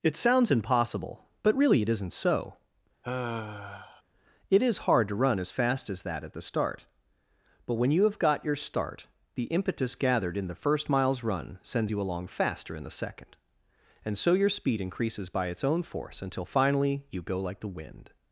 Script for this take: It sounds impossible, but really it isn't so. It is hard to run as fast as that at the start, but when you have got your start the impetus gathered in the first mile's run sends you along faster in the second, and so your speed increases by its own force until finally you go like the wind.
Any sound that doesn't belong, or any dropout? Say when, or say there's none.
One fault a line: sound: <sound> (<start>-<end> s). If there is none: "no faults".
sound: sigh (3.0-4.0 s)